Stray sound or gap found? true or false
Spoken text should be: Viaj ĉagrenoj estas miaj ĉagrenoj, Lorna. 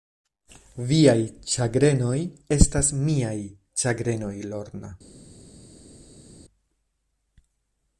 false